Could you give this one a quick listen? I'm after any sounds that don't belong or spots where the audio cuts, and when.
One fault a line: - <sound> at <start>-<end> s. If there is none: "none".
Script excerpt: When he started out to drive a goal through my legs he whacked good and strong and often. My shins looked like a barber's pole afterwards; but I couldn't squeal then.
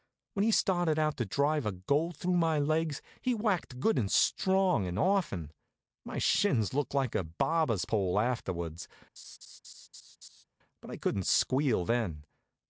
- laugh at 9.2-10.4 s